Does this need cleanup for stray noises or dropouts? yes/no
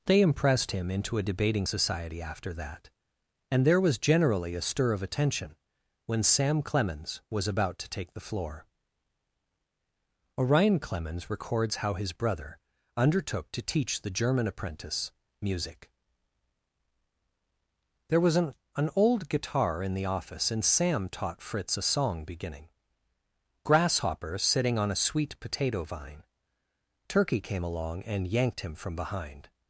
no